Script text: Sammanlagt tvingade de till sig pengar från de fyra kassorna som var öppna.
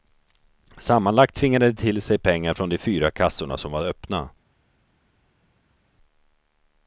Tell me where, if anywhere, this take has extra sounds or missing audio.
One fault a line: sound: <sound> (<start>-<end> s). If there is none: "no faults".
no faults